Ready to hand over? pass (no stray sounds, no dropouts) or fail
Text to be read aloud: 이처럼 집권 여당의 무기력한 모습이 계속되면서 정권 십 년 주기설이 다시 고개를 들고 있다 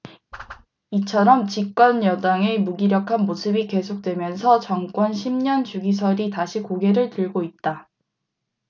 fail